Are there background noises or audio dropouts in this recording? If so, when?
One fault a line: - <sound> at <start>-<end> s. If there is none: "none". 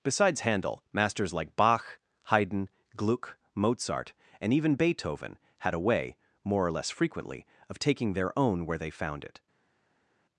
none